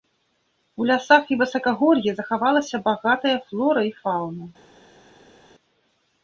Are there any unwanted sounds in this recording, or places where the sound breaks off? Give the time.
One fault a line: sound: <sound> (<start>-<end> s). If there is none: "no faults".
no faults